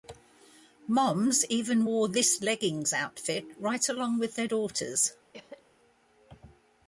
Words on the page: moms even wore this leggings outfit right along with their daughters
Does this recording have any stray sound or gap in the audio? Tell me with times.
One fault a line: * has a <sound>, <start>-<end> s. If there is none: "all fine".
* has a cough, 5.3-5.6 s